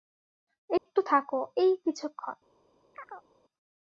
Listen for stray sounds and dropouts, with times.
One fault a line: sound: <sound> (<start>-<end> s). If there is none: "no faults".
sound: dropout (0.8-0.9 s)
sound: chirp (2.9-3.3 s)